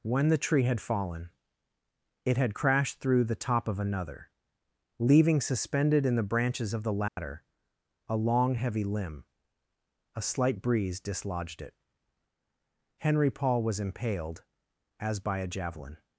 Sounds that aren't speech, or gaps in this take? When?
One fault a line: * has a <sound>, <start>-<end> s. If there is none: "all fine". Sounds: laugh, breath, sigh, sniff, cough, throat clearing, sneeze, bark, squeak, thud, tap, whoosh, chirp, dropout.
* has a dropout, 7.1-7.2 s